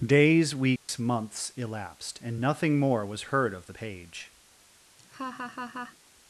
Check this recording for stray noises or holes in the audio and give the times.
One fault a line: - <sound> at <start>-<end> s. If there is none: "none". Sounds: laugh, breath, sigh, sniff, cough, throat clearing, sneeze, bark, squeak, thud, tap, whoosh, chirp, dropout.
- dropout at 0.8-0.9 s
- laugh at 5.0-6.0 s